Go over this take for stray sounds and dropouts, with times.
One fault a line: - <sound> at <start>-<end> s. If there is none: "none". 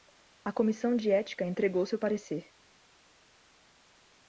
none